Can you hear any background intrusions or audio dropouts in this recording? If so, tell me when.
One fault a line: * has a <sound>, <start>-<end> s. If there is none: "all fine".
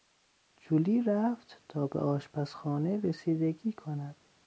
all fine